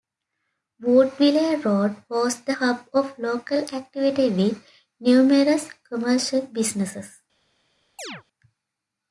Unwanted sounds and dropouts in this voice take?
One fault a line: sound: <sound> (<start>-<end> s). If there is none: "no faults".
sound: chirp (8.0-8.2 s)